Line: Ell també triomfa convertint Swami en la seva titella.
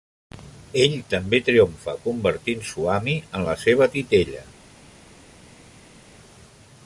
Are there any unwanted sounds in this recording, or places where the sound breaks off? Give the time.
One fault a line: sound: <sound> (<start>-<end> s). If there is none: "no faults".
no faults